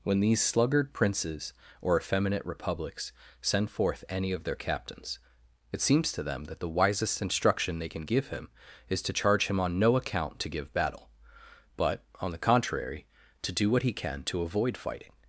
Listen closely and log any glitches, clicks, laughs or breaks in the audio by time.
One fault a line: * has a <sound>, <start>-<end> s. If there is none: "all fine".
all fine